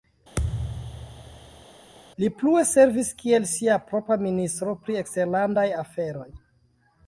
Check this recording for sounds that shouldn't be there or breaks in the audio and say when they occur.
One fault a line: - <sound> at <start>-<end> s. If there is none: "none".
- thud at 0.4-1.7 s